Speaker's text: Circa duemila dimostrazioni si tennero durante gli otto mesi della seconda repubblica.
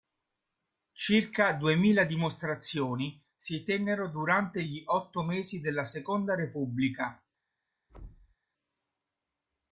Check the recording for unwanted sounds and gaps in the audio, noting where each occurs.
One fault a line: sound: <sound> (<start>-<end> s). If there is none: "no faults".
sound: thud (7.9-8.4 s)